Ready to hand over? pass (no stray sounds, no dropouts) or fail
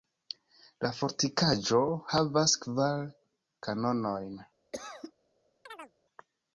fail